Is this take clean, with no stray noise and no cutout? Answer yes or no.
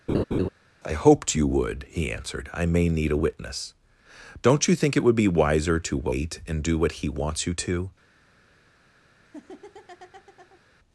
no